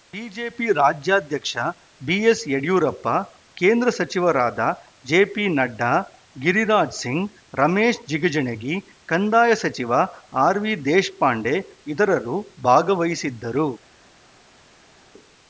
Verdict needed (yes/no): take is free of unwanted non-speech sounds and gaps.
yes